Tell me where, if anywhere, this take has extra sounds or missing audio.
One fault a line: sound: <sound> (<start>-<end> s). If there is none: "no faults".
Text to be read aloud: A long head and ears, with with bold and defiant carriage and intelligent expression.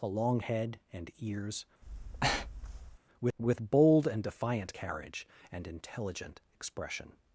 sound: breath (1.8-3.0 s)